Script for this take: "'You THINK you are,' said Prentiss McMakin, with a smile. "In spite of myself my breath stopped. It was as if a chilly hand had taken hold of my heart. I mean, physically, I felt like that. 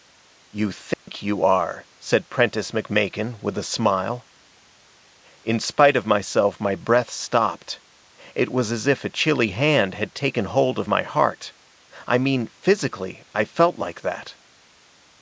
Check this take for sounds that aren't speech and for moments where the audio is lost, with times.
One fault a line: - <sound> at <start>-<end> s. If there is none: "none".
- dropout at 0.9-1.1 s